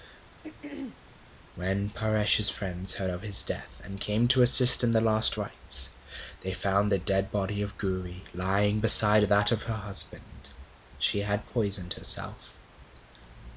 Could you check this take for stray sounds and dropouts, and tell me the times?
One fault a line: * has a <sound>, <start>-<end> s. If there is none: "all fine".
* has a throat clearing, 0.4-1.0 s